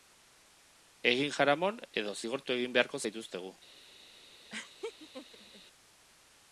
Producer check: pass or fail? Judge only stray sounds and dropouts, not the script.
fail